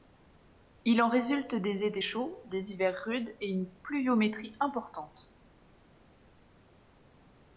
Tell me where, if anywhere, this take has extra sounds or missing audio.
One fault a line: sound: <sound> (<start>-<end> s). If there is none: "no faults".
no faults